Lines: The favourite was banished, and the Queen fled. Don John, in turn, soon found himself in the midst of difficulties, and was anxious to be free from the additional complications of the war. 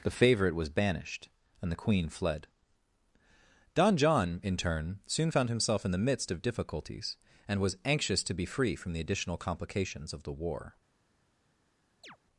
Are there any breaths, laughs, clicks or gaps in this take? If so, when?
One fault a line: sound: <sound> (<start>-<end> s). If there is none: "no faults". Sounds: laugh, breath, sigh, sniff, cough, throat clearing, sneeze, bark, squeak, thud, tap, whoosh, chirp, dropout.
sound: chirp (12.0-12.2 s)